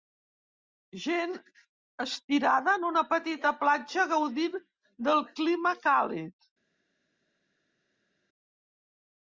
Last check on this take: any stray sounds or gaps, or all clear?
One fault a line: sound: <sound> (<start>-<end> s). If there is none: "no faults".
no faults